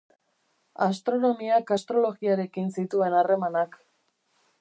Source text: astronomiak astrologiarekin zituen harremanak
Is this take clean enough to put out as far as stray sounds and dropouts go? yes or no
yes